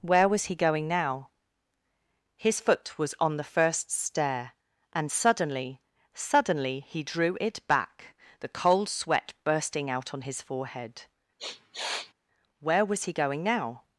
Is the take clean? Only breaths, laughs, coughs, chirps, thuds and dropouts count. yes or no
no